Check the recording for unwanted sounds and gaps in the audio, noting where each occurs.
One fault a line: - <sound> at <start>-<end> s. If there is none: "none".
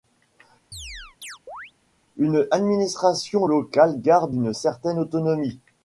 - chirp at 0.7-1.7 s